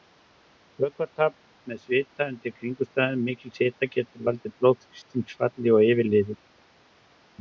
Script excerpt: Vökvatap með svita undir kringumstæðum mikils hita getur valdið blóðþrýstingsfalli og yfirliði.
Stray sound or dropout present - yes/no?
no